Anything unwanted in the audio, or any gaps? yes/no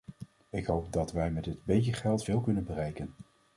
no